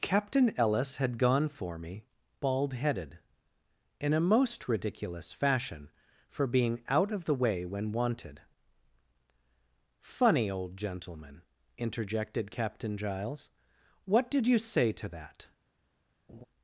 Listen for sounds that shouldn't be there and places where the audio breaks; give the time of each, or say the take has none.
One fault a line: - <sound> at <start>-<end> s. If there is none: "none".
- laugh at 16.3-16.5 s